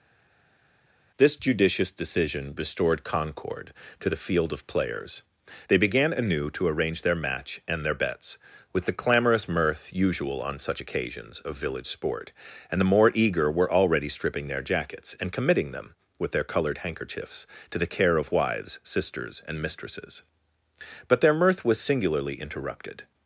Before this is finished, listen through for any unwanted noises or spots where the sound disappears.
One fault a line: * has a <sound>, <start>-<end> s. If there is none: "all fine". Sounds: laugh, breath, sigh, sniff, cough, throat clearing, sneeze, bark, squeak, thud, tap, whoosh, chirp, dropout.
all fine